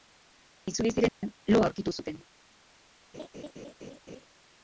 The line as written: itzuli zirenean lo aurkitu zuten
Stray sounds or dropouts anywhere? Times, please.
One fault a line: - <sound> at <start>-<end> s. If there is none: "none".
- dropout at 1.1-1.2 s
- laugh at 3.1-4.3 s